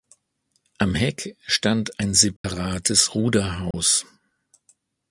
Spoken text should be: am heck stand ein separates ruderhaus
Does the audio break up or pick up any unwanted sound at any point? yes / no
yes